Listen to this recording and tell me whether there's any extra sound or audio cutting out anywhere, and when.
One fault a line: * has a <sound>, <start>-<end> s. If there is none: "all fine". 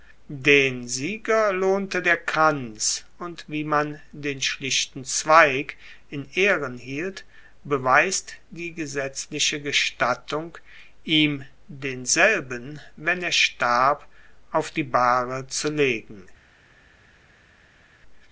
all fine